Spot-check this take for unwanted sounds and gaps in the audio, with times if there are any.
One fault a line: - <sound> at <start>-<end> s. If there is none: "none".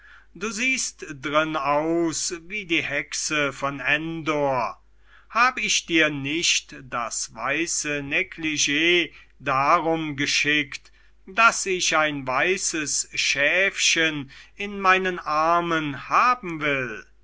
none